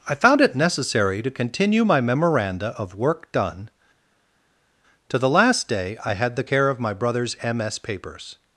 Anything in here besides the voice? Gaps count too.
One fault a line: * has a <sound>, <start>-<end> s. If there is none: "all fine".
all fine